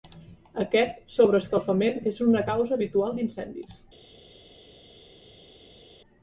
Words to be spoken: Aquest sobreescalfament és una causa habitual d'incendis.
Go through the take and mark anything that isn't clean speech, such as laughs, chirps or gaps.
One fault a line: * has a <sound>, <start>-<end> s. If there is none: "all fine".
all fine